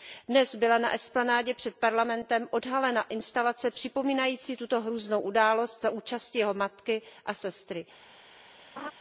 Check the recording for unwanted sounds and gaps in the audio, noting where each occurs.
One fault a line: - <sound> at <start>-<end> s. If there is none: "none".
- laugh at 8.8-8.9 s